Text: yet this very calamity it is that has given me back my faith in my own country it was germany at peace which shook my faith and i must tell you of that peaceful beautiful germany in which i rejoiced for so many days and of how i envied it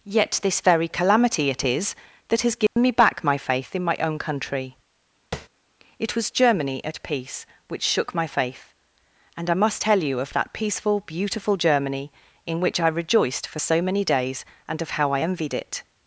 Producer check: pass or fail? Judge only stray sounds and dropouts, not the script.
fail